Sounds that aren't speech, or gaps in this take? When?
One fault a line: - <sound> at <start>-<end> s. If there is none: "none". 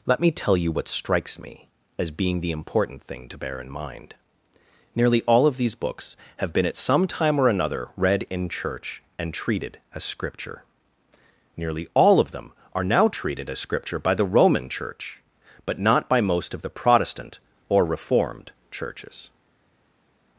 none